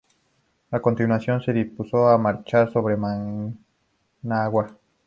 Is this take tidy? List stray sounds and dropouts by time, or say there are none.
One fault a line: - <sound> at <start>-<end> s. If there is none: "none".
none